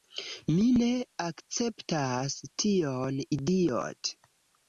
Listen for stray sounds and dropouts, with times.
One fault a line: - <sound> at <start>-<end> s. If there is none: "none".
none